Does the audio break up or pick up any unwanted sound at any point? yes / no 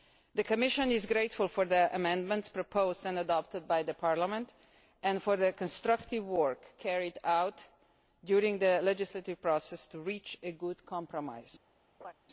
yes